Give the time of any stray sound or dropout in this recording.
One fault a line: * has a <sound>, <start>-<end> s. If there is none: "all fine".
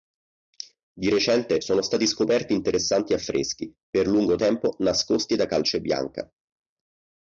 all fine